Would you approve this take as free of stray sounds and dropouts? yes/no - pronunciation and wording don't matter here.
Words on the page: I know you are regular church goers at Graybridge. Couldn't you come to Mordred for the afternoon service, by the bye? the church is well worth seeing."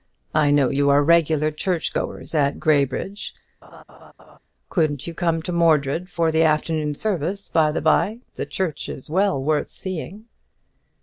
no